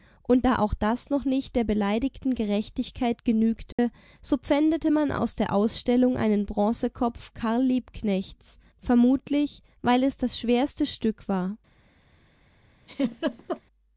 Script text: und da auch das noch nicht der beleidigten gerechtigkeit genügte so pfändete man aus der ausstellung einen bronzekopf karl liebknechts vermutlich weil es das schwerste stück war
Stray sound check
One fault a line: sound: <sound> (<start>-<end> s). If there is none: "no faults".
sound: dropout (3.7-3.8 s)
sound: laugh (12.9-13.6 s)